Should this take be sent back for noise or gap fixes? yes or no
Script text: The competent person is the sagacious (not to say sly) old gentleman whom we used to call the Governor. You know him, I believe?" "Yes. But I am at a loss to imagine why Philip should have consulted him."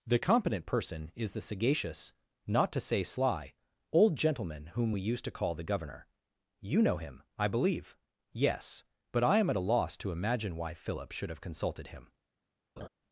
yes